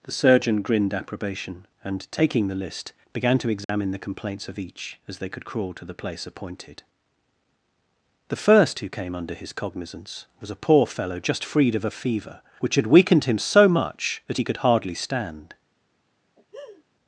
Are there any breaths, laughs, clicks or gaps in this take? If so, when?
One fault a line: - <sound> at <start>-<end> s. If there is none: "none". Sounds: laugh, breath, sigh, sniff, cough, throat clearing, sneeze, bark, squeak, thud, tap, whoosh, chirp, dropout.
- dropout at 3.6-3.7 s
- laugh at 16.4-16.8 s